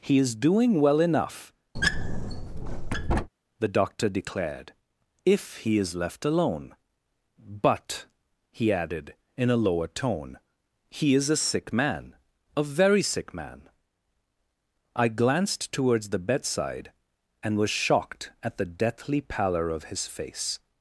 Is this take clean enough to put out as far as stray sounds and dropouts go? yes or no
no